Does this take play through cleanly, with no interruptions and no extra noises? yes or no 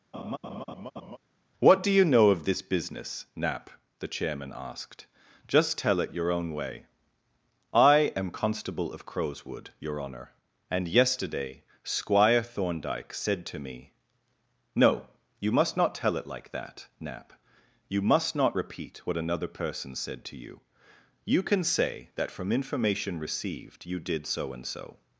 no